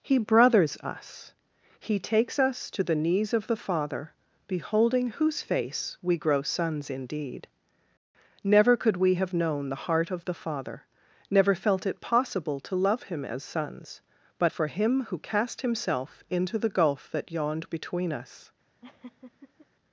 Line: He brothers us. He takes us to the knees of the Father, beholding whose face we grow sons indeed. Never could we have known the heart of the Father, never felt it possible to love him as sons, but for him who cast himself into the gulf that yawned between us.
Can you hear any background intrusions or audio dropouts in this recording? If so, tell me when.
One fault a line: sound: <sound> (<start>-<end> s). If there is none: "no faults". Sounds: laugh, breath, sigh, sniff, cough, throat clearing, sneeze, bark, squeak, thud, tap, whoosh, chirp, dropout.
sound: laugh (18.8-19.7 s)